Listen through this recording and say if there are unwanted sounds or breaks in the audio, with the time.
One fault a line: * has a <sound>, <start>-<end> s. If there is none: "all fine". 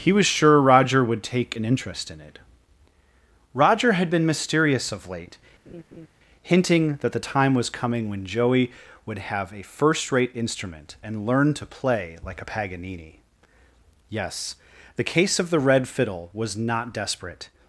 * has a laugh, 5.7-6.1 s